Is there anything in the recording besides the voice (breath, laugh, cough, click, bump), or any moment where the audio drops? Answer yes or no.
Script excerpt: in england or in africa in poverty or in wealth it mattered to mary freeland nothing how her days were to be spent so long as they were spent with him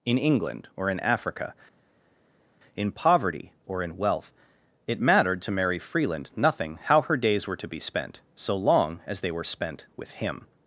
no